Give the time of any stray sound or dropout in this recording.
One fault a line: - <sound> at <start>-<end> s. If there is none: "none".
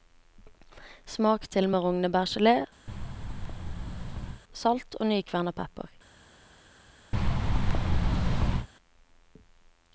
- thud at 2.9-4.4 s
- thud at 7.1-8.7 s